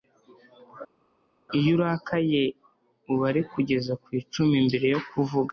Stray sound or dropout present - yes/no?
no